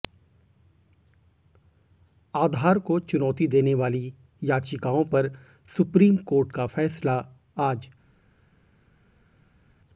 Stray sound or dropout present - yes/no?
no